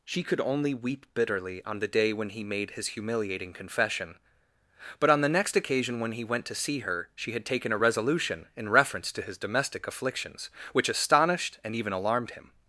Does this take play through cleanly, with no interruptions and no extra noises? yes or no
yes